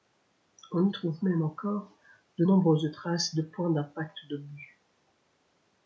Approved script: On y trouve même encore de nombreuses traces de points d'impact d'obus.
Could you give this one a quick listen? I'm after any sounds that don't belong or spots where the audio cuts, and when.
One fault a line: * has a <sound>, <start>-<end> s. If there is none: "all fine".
all fine